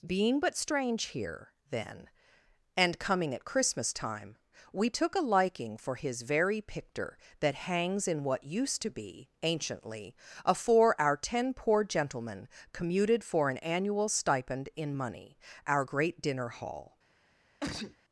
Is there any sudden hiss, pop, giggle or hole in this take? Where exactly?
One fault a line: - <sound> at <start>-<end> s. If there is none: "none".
- sneeze at 17.6-18.0 s